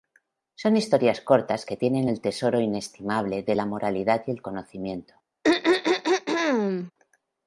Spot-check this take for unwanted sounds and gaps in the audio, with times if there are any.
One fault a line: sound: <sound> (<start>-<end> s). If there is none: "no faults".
sound: throat clearing (5.4-6.9 s)